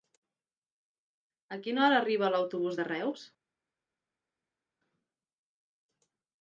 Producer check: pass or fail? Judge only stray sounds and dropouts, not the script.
pass